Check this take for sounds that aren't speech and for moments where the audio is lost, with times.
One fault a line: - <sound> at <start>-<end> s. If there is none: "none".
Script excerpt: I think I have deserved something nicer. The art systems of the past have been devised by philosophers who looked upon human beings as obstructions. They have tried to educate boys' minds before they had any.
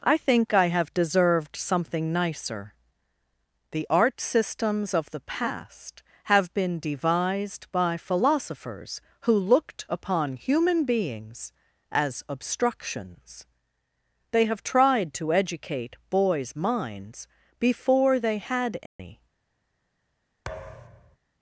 - dropout at 18.9-19.0 s
- thud at 20.5-21.2 s